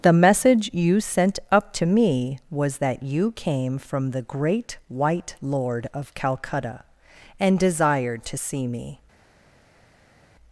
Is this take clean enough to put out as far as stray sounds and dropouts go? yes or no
yes